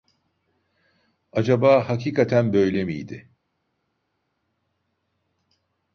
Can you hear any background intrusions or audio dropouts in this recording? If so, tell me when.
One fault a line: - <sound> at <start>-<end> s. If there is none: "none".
none